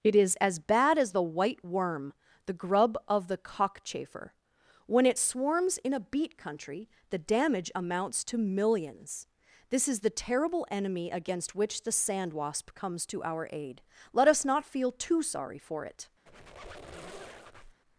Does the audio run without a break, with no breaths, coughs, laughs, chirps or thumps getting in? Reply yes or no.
no